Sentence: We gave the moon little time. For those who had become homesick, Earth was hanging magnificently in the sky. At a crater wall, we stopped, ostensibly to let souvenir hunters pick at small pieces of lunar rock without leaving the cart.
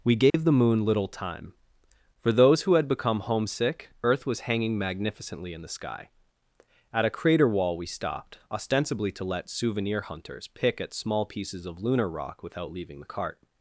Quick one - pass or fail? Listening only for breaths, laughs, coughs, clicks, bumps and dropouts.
fail